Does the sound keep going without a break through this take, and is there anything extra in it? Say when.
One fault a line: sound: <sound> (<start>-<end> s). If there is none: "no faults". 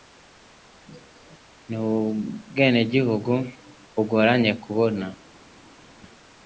no faults